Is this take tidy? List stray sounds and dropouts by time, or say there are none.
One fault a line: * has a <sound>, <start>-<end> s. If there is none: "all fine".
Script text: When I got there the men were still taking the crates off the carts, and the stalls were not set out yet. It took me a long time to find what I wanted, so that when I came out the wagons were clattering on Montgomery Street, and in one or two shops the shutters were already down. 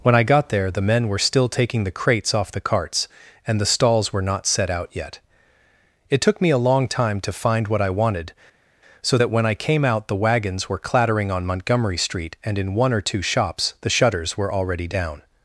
all fine